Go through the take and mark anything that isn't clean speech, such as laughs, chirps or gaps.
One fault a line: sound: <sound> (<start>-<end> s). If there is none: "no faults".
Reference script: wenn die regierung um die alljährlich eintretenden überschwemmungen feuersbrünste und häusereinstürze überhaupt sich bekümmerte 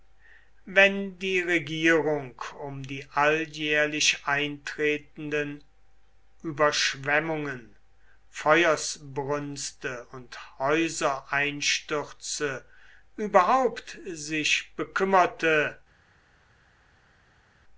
no faults